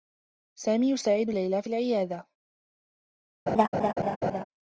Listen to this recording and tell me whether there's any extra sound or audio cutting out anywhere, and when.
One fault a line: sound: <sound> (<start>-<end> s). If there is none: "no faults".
sound: laugh (3.5-4.4 s)